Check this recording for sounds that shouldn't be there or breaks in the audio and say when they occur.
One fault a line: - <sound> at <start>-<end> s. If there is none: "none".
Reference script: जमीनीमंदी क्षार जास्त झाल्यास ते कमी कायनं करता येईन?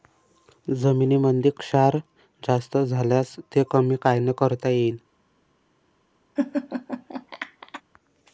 - laugh at 6.4-7.8 s